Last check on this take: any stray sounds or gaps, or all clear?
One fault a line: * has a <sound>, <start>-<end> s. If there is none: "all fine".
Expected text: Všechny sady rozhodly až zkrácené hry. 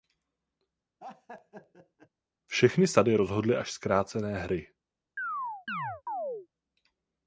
* has a laugh, 1.0-2.1 s
* has a chirp, 5.2-6.5 s